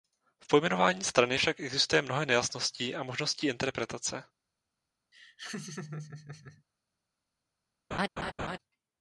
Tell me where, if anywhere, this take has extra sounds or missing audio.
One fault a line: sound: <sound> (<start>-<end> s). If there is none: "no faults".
sound: laugh (5.1-6.6 s)
sound: laugh (7.9-8.6 s)